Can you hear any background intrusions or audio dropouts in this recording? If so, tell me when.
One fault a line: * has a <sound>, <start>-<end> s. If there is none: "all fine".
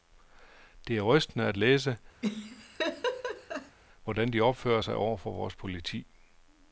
* has a laugh, 2.2-3.8 s